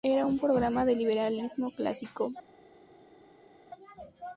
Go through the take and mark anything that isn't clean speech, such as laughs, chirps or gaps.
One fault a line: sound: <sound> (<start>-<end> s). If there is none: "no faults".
no faults